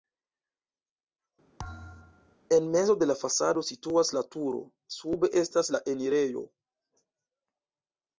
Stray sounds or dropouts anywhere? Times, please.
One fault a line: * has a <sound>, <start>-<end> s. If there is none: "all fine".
* has a thud, 1.6-2.4 s